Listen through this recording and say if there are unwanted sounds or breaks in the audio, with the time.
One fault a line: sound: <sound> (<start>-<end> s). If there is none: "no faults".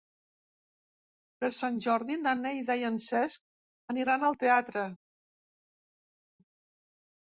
no faults